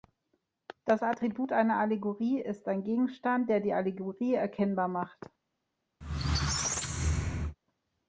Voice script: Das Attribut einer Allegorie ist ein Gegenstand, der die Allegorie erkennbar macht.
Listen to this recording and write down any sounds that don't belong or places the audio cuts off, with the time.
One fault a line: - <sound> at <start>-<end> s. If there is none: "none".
- squeak at 6.0-7.6 s